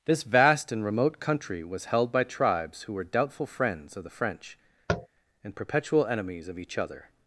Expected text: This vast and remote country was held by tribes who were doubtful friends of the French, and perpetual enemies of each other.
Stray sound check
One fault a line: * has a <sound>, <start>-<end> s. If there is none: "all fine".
* has a tap, 4.9-5.1 s